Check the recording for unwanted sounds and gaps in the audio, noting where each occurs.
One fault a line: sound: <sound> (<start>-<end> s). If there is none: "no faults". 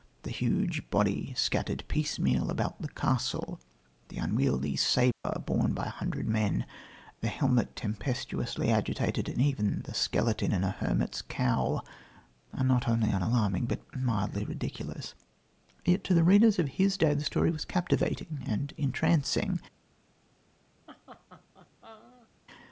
sound: dropout (5.1-5.2 s)
sound: laugh (20.9-22.3 s)